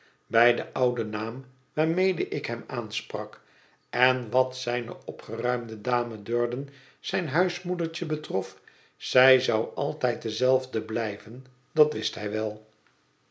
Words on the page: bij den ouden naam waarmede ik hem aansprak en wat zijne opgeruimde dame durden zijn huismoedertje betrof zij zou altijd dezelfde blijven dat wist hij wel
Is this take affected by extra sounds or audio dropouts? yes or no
no